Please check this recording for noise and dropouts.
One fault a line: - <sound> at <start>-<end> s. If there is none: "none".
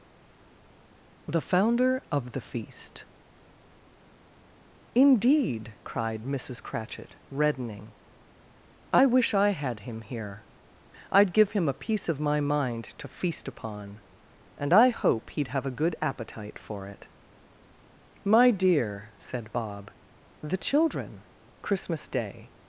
none